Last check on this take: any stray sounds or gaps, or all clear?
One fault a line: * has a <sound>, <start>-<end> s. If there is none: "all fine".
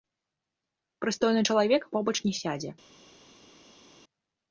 all fine